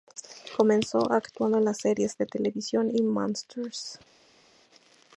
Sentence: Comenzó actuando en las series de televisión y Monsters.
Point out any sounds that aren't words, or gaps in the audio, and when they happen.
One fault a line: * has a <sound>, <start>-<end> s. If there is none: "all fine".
all fine